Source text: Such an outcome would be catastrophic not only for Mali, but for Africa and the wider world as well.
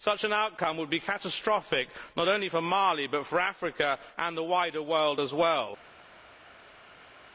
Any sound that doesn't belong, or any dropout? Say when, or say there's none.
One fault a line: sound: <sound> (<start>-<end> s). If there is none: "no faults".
no faults